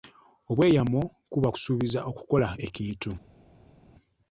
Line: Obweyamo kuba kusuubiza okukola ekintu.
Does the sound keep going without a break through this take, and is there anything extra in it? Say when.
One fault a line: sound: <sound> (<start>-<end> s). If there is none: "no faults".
no faults